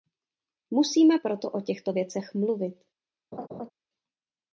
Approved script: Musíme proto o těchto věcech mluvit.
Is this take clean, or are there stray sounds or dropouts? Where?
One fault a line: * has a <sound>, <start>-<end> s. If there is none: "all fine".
* has a laugh, 3.3-3.7 s